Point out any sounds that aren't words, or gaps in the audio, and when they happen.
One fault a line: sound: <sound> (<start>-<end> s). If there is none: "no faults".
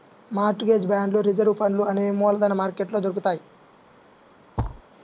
sound: thud (4.6-4.8 s)